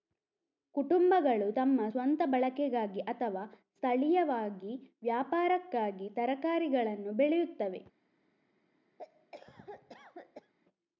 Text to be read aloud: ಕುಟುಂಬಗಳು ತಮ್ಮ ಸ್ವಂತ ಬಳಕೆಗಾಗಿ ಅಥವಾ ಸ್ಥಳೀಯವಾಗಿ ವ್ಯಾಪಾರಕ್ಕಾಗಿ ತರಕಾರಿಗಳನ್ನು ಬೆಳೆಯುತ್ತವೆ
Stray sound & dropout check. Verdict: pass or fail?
fail